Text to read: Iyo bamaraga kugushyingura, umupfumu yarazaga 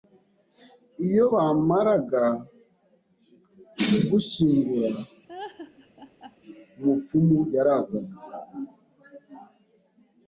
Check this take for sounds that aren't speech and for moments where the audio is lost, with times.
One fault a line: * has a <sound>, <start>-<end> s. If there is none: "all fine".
* has a laugh, 5.3-6.4 s